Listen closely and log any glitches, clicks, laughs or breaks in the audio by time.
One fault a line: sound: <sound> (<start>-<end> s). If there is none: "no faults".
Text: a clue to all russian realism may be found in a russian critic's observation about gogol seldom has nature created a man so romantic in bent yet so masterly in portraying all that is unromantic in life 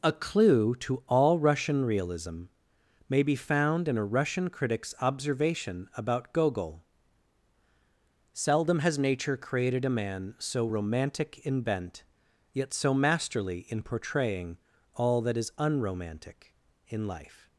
no faults